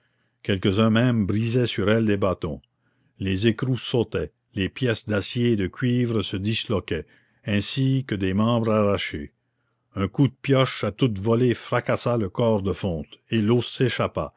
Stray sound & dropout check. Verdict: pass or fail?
pass